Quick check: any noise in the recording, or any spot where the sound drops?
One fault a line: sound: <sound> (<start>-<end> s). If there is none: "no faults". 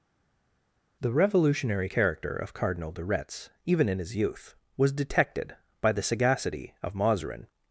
no faults